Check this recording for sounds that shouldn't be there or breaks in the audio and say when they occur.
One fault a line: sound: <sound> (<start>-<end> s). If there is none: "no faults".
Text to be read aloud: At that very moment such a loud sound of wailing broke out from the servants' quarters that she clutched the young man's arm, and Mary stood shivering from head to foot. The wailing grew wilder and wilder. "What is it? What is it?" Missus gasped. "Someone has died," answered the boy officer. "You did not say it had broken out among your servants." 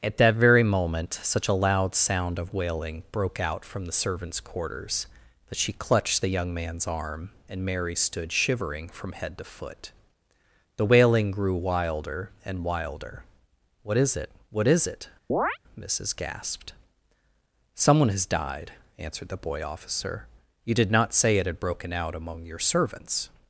sound: chirp (15.3-15.6 s)